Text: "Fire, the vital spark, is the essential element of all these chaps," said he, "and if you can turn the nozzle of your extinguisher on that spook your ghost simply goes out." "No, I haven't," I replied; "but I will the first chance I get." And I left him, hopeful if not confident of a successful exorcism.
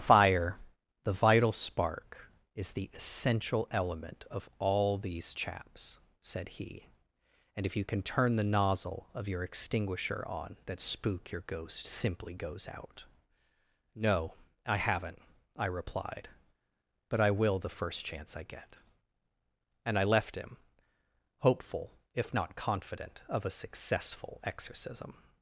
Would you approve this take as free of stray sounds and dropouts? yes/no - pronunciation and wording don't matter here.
yes